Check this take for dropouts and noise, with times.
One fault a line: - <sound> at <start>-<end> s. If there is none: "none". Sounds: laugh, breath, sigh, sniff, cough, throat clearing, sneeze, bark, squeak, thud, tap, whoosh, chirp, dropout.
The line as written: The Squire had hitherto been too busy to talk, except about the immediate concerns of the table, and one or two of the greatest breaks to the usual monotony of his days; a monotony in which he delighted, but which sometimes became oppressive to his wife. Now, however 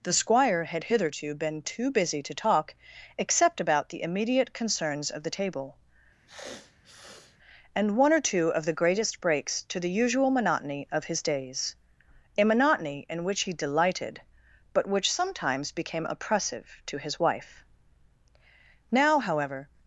- sniff at 6.3-7.4 s